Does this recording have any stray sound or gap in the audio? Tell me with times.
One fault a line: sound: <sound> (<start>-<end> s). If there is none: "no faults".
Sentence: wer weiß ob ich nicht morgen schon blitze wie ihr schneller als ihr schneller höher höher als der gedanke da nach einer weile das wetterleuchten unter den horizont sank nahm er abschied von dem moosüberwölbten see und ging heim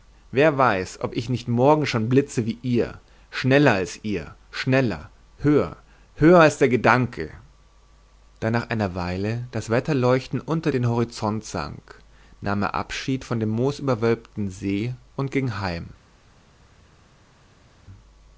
no faults